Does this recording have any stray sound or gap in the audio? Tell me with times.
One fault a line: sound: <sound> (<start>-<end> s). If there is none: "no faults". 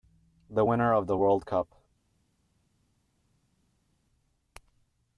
no faults